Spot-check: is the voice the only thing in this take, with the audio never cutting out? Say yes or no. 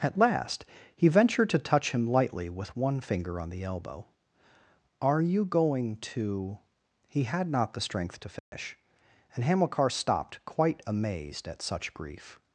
no